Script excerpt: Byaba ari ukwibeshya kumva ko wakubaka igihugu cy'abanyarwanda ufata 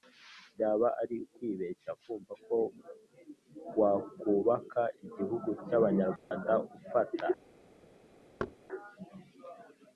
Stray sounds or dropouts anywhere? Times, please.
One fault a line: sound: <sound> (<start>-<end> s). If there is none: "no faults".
sound: dropout (6.2-6.3 s)
sound: thud (8.4-8.6 s)